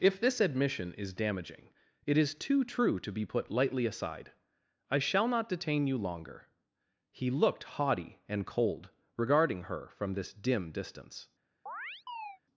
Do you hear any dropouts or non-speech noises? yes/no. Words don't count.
yes